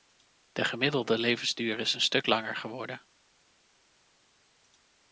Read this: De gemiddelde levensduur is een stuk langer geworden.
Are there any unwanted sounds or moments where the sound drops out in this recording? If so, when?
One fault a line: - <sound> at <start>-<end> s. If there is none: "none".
none